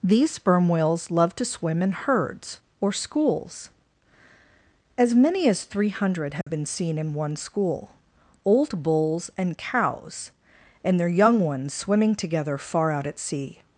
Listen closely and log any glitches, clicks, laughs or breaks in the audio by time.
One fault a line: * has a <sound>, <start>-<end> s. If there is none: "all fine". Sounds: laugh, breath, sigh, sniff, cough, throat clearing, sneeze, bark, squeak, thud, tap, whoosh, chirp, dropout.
* has a dropout, 6.4-6.5 s